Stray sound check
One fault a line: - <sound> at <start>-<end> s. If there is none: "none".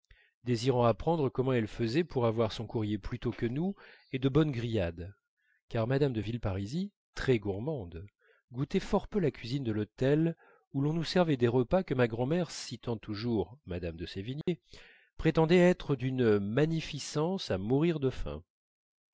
- dropout at 14.4-14.5 s